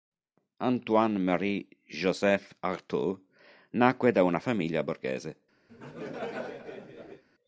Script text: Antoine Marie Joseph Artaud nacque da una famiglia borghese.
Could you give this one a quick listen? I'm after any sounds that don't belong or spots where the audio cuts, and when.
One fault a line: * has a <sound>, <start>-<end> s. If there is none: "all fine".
* has a laugh, 5.7-7.2 s